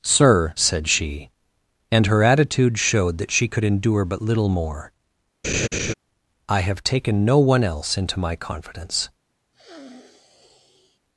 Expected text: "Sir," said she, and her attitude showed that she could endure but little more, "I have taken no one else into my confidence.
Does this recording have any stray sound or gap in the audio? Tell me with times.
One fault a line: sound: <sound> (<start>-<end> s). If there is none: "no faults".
sound: laugh (5.4-5.9 s)
sound: sniff (9.5-11.0 s)